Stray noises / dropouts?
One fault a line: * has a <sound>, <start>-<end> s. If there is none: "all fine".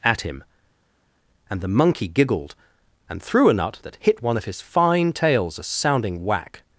all fine